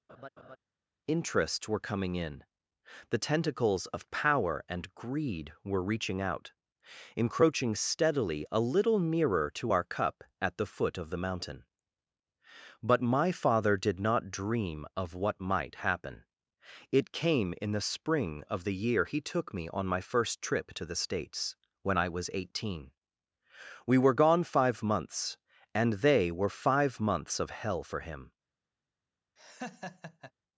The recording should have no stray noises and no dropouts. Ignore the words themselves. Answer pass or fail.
fail